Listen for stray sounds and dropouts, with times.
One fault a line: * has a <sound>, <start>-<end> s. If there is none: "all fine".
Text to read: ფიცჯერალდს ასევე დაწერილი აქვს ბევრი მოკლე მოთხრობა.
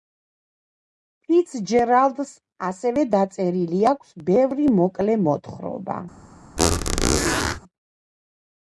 * has a squeak, 6.6-7.6 s